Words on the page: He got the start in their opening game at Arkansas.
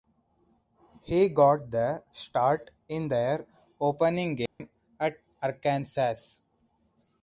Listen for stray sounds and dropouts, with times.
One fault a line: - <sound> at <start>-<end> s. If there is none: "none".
- dropout at 4.5-4.6 s